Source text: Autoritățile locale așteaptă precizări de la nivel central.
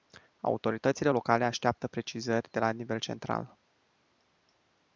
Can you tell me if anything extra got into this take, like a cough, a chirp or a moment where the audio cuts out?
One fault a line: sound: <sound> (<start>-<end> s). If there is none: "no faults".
no faults